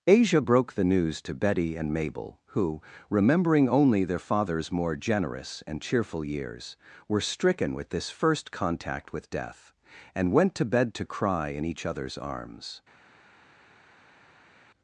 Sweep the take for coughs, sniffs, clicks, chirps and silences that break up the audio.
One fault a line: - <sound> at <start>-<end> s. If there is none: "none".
none